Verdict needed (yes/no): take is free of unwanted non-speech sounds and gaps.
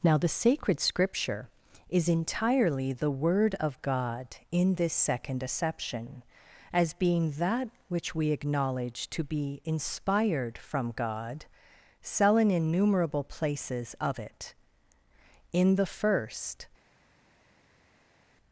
yes